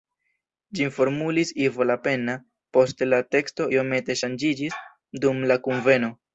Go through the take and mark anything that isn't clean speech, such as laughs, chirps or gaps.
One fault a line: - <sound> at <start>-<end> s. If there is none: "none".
none